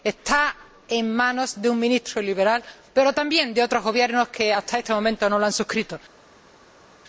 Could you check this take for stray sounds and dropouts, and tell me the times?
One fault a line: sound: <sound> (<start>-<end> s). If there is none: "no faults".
no faults